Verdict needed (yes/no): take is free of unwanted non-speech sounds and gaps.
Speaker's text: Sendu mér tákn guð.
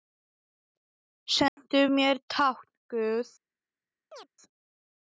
no